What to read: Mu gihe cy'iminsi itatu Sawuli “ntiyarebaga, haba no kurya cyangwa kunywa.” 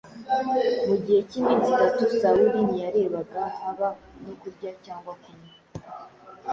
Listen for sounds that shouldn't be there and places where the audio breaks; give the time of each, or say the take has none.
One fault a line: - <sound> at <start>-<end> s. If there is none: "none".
none